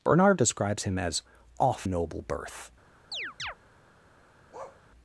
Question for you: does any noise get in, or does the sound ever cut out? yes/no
yes